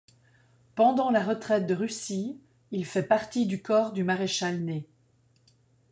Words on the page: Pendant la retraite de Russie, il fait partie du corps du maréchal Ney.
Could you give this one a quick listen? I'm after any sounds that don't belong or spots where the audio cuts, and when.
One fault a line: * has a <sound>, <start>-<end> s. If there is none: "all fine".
all fine